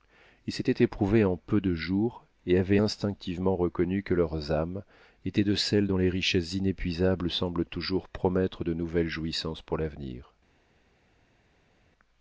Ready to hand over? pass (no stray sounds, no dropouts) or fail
pass